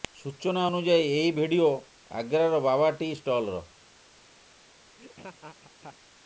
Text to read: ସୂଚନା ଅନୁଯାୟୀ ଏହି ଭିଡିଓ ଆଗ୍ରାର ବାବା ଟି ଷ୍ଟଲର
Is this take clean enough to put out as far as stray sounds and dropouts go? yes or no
no